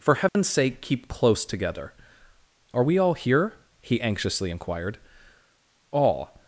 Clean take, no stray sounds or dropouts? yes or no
no